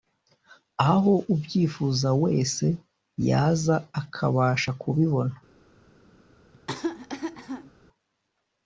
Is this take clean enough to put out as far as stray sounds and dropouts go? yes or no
no